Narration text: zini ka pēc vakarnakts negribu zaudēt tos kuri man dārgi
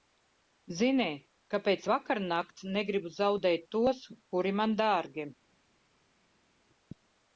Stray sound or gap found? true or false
false